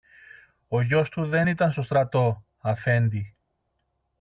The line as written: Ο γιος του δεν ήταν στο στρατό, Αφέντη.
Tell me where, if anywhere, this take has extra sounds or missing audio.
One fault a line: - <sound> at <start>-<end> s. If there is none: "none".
none